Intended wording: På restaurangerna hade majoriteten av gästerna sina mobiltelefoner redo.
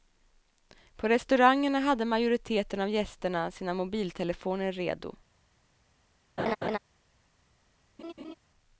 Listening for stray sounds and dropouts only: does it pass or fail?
fail